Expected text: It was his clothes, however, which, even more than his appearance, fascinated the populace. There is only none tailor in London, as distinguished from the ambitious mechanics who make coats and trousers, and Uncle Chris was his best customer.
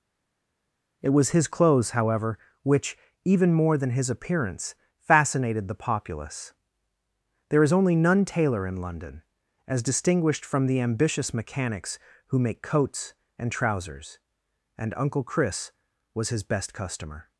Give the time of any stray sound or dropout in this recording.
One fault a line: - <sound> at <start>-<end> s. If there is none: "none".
none